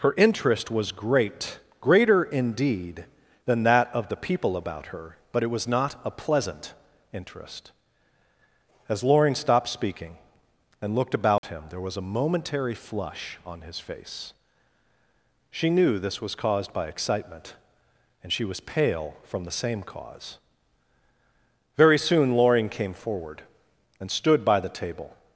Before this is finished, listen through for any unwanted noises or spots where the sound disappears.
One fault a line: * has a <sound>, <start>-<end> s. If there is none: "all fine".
* has a dropout, 11.4-11.4 s